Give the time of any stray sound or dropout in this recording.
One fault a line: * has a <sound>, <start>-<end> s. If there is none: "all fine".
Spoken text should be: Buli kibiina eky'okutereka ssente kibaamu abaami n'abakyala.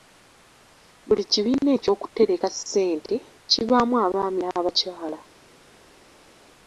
all fine